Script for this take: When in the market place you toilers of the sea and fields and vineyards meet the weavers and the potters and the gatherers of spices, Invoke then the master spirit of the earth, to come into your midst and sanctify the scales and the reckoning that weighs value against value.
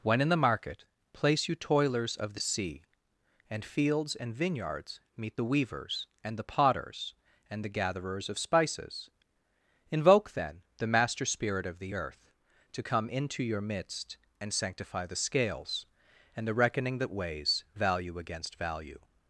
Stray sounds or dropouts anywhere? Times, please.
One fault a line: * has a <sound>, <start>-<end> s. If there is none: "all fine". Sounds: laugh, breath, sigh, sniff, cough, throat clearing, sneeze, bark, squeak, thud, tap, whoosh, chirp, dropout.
all fine